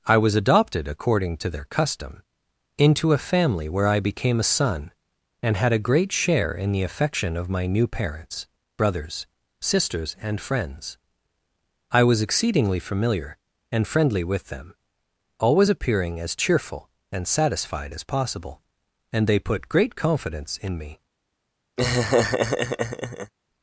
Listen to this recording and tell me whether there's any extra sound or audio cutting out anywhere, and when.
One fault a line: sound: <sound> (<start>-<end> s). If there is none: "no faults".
sound: laugh (21.8-23.3 s)